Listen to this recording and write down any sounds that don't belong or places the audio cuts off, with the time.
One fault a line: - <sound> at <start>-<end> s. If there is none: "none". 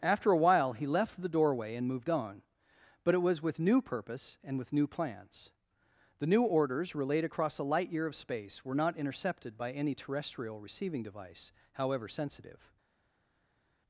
none